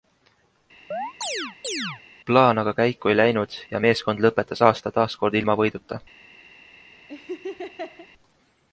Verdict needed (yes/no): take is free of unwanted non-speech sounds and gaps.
no